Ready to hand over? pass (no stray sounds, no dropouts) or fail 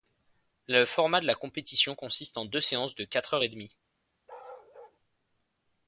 fail